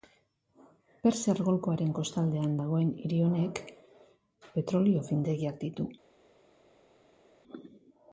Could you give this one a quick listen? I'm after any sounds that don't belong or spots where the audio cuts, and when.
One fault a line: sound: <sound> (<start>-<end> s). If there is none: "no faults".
no faults